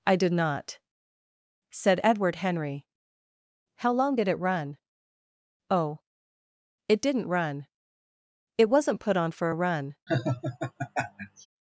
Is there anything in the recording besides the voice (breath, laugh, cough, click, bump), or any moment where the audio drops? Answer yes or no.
yes